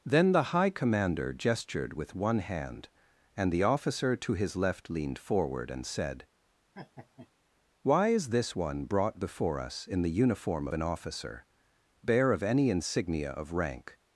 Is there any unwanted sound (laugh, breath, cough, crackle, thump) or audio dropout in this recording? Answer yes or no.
yes